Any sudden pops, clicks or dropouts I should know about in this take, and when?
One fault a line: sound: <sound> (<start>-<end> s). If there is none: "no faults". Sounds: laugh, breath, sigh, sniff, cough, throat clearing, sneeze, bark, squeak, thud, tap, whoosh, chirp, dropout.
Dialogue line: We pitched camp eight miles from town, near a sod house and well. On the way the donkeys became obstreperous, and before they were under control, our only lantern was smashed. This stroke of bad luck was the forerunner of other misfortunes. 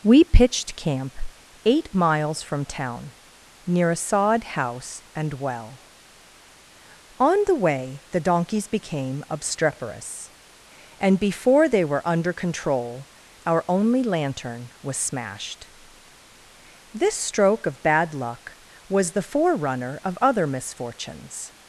no faults